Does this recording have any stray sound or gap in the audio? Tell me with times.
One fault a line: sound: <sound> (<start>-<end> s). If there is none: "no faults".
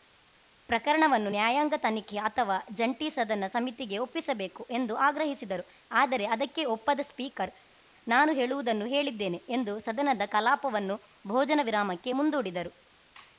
no faults